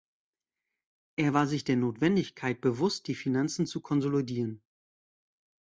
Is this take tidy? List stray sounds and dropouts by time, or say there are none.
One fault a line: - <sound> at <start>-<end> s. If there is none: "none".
none